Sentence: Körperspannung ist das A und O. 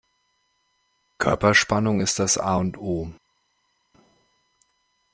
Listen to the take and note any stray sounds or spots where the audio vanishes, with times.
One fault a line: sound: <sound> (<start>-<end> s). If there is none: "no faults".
no faults